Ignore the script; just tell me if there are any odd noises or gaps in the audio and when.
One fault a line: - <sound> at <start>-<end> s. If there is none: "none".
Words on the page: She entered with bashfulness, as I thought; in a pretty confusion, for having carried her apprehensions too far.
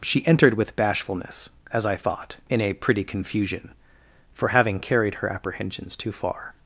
none